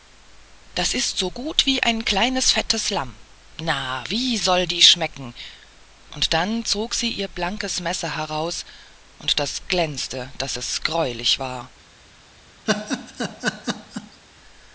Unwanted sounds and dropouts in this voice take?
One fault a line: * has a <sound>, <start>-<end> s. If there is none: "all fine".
* has a laugh, 12.7-14.2 s